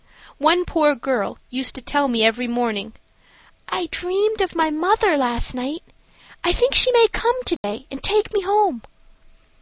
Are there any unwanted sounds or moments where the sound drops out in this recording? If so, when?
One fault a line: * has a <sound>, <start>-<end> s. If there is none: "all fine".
* has a dropout, 7.6-7.6 s